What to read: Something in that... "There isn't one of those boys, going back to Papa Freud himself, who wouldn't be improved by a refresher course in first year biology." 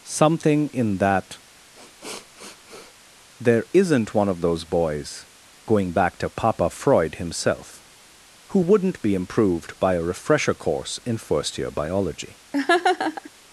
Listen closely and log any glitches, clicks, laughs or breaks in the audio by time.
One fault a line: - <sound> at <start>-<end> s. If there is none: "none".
- sniff at 1.7-2.9 s
- laugh at 12.5-13.3 s